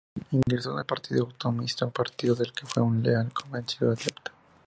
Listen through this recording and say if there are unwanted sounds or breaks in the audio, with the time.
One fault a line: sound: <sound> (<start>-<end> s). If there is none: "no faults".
sound: dropout (0.4-0.5 s)